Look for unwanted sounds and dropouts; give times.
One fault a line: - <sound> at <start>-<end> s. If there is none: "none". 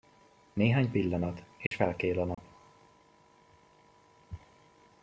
- dropout at 1.7-1.7 s
- dropout at 2.3-2.4 s